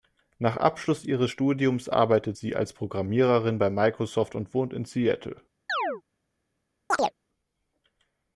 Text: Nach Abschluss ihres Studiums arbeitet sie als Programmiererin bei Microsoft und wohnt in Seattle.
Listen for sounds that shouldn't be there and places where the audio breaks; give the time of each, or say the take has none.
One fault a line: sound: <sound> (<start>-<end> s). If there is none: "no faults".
sound: chirp (5.7-6.0 s)
sound: chirp (6.9-7.1 s)